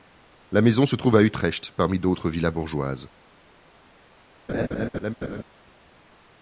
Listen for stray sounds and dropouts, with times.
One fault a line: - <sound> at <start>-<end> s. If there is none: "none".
- laugh at 4.5-5.4 s